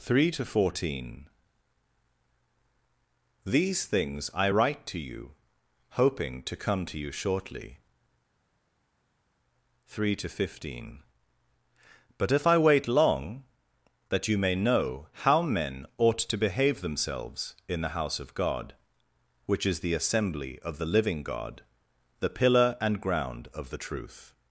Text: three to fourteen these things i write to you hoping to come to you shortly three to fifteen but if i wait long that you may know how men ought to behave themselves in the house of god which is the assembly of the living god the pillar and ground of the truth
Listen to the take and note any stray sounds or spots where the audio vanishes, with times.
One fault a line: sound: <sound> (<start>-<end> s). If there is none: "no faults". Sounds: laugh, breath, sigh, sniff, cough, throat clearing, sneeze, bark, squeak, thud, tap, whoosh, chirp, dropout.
no faults